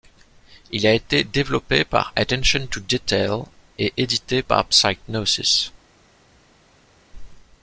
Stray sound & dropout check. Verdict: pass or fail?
pass